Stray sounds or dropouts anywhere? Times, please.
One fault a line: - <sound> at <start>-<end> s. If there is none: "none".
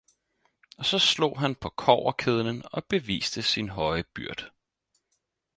none